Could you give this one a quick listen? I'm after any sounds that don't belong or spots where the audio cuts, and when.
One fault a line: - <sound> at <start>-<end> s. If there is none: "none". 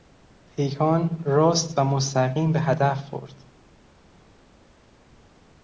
none